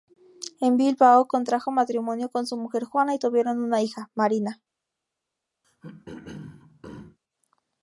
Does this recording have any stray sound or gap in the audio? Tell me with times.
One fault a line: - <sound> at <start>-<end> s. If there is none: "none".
- throat clearing at 5.6-7.2 s